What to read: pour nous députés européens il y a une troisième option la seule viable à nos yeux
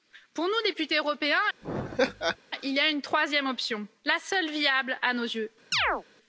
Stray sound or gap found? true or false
true